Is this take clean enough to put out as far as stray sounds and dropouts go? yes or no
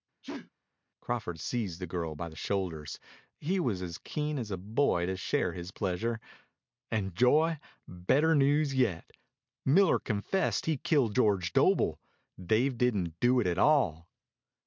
no